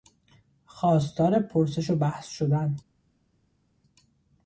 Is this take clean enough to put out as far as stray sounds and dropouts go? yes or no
yes